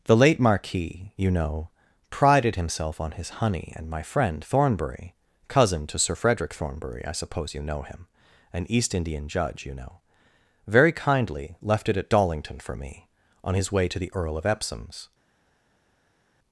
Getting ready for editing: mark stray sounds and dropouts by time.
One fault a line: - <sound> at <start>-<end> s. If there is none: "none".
none